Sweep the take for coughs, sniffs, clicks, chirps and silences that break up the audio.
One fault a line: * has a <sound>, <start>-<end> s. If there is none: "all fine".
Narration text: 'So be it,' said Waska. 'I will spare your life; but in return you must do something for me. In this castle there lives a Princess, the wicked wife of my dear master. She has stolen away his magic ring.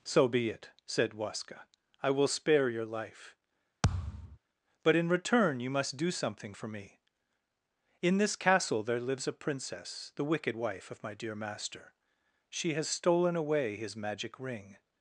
* has a thud, 3.8-4.4 s